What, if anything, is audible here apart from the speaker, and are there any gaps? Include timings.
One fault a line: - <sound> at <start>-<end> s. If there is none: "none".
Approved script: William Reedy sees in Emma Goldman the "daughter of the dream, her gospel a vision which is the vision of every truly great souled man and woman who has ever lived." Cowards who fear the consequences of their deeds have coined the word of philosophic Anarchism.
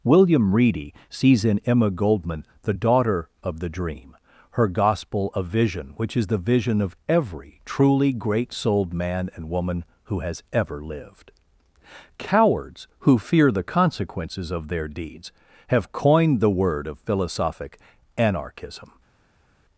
none